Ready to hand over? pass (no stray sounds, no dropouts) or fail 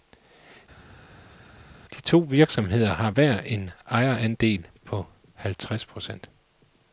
pass